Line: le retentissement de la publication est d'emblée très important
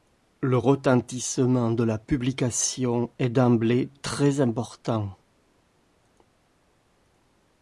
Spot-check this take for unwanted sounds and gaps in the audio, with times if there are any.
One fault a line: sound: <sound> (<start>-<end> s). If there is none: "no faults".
no faults